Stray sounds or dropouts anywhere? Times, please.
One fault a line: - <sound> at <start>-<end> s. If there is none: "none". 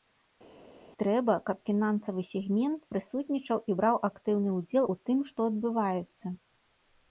none